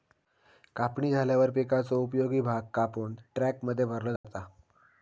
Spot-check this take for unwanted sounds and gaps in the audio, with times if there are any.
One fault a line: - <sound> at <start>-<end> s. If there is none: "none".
- dropout at 4.2-4.2 s